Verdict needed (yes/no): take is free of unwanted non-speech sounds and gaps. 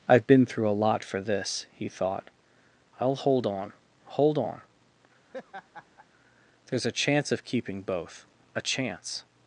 no